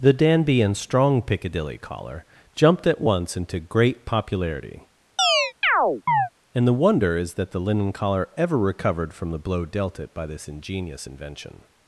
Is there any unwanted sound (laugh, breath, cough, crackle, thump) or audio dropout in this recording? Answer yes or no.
yes